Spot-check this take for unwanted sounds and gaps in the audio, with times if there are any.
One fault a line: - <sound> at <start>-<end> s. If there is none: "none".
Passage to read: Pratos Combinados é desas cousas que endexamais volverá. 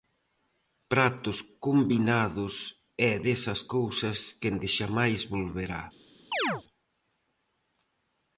- chirp at 6.3-6.6 s